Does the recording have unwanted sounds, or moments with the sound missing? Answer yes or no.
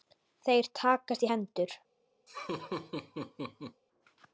yes